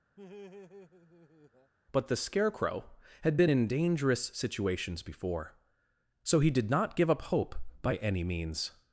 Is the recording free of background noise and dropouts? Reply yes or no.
no